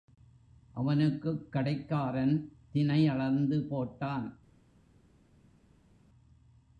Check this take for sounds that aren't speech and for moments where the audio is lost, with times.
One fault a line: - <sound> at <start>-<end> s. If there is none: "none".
none